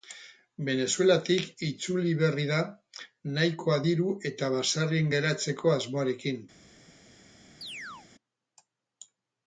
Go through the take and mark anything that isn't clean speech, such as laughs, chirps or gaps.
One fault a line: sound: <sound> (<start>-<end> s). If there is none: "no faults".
sound: chirp (7.6-8.1 s)